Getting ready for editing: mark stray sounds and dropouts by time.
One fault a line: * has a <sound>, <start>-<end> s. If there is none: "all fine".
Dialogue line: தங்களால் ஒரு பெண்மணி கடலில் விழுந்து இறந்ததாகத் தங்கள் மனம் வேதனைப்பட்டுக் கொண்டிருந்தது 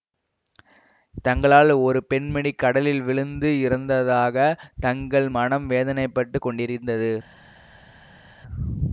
all fine